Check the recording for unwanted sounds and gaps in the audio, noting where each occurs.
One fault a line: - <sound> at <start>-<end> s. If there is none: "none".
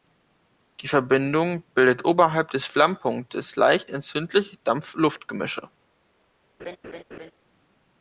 - laugh at 6.6-7.3 s